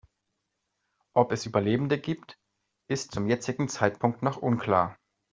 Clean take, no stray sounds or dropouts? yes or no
yes